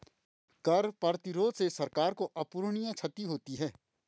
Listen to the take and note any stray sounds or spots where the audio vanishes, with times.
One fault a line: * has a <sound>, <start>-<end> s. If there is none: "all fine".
all fine